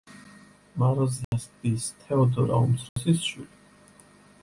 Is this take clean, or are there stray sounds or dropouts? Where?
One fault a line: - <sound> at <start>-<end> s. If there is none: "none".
- dropout at 1.2-1.3 s
- dropout at 2.9-3.0 s